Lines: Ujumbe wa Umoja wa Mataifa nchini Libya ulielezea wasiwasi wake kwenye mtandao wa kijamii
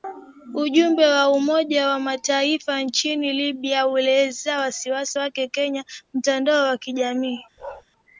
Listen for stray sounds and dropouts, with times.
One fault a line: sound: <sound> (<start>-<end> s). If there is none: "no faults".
sound: bark (7.6-7.8 s)